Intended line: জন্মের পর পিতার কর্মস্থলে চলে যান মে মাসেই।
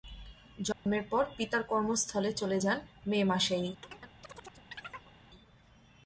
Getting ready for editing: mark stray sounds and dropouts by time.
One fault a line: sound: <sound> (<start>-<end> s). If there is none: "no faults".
sound: dropout (0.7-0.9 s)
sound: chirp (3.8-5.1 s)